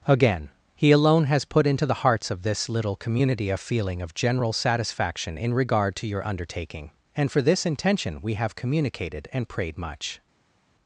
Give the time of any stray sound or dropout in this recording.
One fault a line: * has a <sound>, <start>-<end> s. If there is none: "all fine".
all fine